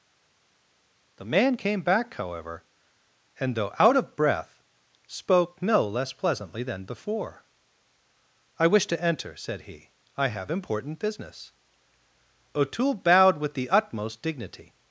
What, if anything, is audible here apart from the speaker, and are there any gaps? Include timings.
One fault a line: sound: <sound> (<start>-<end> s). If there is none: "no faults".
no faults